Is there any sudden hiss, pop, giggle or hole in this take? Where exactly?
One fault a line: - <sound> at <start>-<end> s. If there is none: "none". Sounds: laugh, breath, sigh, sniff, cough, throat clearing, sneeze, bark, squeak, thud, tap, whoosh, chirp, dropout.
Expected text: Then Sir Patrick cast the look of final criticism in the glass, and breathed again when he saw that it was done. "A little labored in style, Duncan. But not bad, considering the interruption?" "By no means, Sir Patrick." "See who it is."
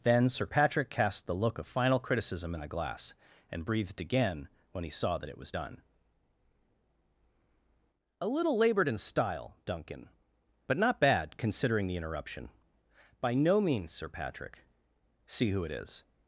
none